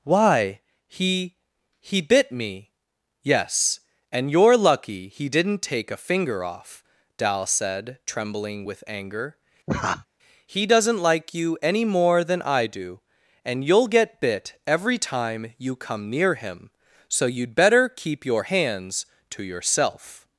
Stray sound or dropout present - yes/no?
yes